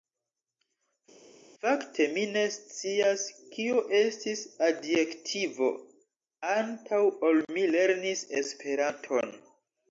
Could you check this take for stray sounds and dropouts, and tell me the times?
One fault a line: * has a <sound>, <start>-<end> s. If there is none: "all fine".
all fine